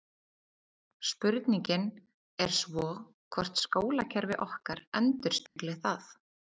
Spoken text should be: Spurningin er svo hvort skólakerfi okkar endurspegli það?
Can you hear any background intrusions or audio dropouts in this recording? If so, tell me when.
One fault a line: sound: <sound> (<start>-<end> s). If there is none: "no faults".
sound: dropout (5.5-5.6 s)